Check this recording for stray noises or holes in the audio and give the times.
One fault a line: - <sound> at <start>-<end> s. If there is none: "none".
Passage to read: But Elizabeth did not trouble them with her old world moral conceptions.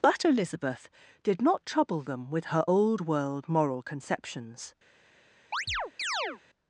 - chirp at 5.5-6.4 s